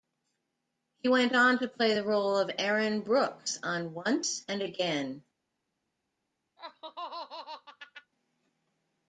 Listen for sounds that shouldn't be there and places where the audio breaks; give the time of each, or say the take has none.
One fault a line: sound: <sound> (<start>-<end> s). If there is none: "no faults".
sound: laugh (6.6-8.1 s)